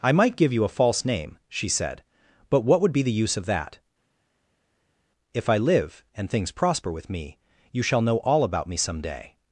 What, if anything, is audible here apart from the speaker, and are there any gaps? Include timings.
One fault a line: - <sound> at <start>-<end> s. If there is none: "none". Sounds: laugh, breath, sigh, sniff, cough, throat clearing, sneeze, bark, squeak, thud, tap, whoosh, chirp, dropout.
none